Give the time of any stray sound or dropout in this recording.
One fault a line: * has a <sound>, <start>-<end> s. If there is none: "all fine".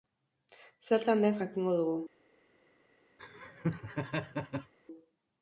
* has a laugh, 3.2-4.7 s